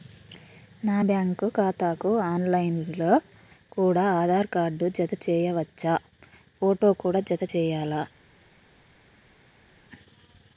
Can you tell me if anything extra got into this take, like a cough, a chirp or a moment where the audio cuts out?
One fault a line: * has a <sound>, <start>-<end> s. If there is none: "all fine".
all fine